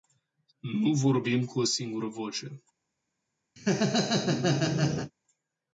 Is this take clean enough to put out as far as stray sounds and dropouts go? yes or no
no